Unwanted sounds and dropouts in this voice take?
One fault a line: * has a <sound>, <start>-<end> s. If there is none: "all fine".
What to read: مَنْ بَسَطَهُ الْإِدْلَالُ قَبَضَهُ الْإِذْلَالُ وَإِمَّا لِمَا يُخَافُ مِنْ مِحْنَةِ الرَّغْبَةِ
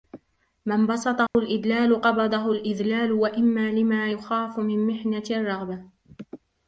* has a dropout, 1.3-1.3 s